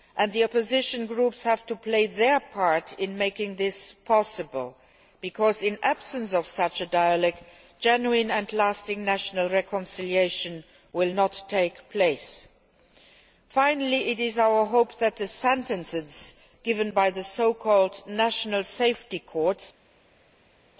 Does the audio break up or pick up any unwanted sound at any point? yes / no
no